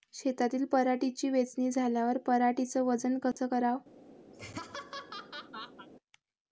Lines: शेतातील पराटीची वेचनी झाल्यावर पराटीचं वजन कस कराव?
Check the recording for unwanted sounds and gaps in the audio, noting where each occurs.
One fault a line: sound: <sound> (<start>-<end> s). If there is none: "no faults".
sound: dropout (3.3-3.4 s)
sound: laugh (4.3-5.9 s)